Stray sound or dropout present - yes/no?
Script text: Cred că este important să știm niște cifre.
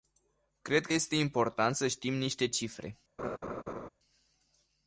yes